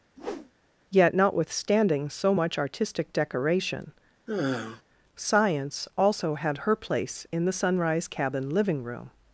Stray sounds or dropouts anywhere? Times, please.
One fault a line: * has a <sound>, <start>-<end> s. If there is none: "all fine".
* has a whoosh, 0.2-0.5 s
* has a sigh, 4.3-4.8 s